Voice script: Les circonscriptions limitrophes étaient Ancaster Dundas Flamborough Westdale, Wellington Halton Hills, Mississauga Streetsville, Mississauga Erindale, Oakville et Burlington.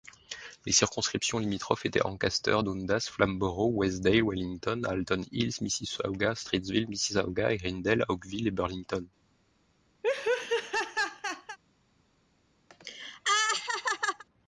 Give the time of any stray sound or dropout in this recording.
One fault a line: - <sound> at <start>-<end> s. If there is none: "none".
- laugh at 10.0-11.6 s
- laugh at 12.7-14.2 s